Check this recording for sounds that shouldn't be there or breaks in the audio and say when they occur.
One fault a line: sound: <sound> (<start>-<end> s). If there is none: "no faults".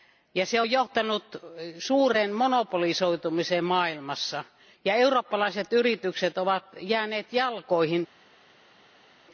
no faults